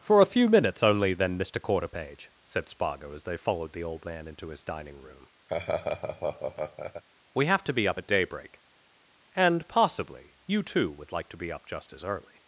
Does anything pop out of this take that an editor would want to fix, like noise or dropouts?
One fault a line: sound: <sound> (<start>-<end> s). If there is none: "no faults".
sound: laugh (5.5-7.0 s)